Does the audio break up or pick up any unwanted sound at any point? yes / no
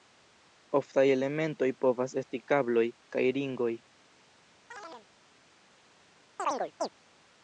yes